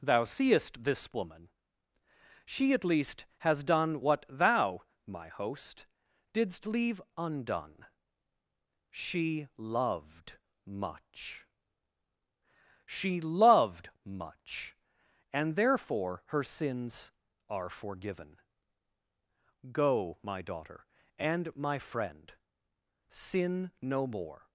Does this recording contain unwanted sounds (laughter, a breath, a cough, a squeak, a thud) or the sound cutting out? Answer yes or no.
no